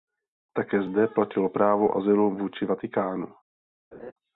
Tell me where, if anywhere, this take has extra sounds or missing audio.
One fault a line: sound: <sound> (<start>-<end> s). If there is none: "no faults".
sound: laugh (3.9-4.1 s)